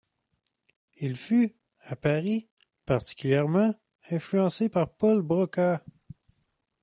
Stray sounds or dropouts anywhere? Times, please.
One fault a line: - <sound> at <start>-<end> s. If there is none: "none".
none